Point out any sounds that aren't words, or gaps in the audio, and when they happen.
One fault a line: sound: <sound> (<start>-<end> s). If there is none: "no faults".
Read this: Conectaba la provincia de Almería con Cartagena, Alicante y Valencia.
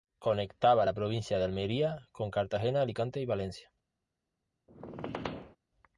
sound: squeak (4.7-5.6 s)